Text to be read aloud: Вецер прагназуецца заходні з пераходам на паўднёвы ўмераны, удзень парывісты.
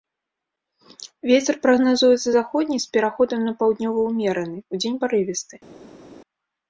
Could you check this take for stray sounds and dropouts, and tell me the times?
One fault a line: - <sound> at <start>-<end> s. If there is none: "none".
none